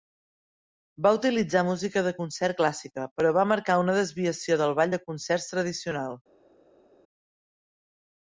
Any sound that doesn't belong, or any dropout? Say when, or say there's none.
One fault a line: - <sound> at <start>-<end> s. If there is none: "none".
none